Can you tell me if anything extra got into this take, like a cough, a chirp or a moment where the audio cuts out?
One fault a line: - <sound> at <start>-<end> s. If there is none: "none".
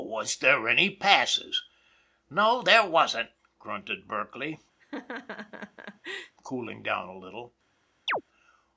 - laugh at 4.8-6.4 s
- chirp at 8.1-8.2 s